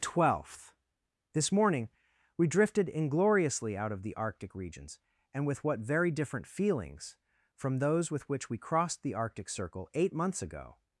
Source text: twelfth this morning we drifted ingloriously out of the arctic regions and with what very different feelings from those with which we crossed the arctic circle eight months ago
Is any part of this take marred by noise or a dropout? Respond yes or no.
no